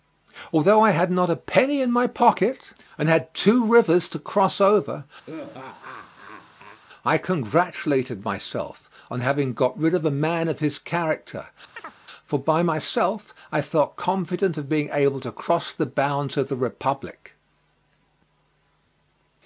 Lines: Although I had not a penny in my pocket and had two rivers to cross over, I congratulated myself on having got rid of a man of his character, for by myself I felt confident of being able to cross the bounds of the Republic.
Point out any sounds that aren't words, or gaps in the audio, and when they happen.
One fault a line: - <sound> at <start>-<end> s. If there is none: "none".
- laugh at 5.3-6.8 s
- chirp at 11.7-12.0 s